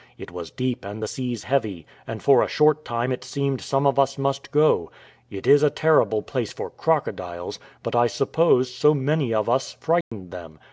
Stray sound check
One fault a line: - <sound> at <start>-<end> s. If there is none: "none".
- dropout at 10.0-10.1 s